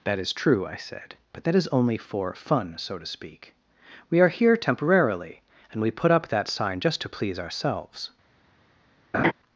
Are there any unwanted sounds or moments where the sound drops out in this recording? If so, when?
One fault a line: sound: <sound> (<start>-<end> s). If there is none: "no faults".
sound: laugh (9.1-9.3 s)